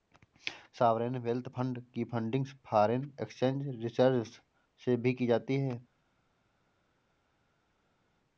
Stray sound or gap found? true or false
false